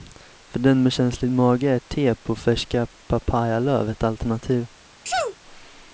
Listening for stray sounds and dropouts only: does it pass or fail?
fail